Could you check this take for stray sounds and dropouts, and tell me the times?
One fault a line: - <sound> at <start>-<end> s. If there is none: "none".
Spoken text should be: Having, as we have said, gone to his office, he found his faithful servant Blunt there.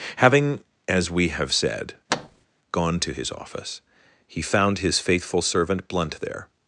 - thud at 2.1-2.5 s